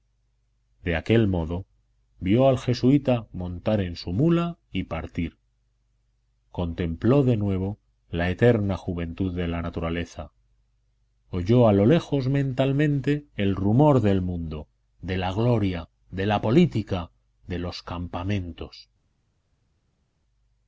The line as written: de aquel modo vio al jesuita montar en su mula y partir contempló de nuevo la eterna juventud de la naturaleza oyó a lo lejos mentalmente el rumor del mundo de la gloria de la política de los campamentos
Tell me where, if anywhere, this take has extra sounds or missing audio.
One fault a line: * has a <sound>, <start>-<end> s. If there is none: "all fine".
all fine